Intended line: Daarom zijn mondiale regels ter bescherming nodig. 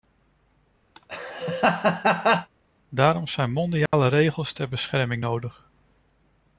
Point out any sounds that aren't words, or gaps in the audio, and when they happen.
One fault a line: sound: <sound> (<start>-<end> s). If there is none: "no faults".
sound: laugh (0.9-2.5 s)
sound: dropout (3.9-3.9 s)